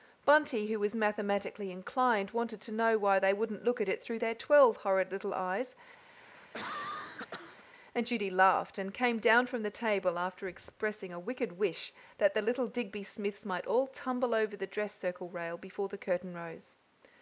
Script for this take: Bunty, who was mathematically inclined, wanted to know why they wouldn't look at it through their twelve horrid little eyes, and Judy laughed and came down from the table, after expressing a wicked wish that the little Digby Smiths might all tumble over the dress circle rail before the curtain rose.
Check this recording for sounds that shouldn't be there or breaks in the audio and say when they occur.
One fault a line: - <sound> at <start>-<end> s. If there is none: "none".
- cough at 6.1-7.6 s